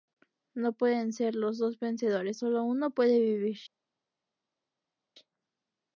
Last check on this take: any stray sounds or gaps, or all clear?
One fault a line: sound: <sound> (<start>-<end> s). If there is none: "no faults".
no faults